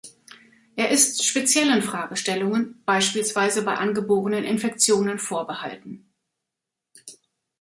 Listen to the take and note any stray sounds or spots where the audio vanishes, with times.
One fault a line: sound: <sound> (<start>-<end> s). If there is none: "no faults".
no faults